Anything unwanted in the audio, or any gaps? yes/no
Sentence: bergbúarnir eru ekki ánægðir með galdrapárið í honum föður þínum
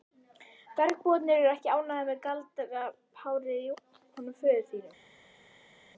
no